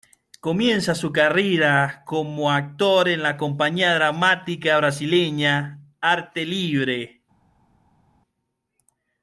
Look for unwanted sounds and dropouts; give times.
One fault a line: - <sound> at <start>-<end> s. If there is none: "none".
none